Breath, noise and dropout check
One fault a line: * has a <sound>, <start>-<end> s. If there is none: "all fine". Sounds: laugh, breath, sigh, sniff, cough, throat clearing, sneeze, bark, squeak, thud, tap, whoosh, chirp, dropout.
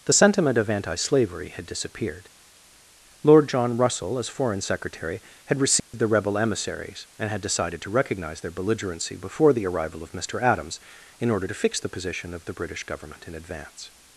* has a dropout, 5.8-5.9 s